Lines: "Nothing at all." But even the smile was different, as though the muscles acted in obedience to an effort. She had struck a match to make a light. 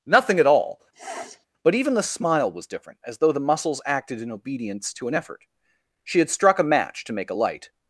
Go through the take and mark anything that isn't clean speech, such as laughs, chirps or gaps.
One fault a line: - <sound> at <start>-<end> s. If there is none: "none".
- sniff at 0.9-1.5 s